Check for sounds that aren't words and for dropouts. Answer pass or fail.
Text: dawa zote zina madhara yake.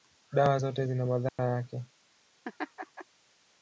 fail